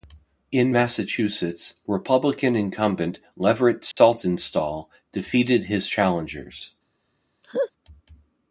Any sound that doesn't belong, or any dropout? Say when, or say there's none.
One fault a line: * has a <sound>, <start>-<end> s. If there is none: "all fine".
* has a dropout, 3.9-4.0 s
* has a laugh, 7.4-7.7 s